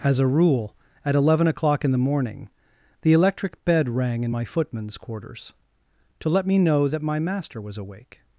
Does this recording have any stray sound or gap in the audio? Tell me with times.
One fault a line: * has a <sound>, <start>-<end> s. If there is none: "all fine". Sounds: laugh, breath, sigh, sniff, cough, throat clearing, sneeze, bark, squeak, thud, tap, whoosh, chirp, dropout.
all fine